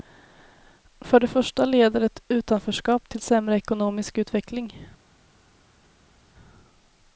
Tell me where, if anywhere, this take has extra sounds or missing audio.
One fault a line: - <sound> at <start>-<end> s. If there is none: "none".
none